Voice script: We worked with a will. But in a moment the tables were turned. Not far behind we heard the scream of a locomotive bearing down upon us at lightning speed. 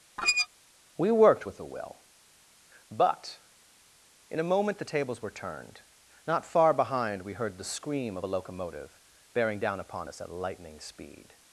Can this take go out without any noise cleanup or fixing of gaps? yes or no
no